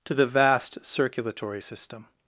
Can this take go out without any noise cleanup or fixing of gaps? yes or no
yes